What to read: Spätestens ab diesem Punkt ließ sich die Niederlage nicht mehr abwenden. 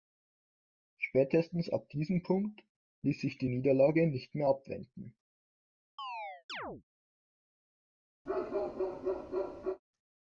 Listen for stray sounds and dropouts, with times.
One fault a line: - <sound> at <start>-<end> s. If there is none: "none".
- chirp at 6.0-6.8 s
- bark at 8.3-9.8 s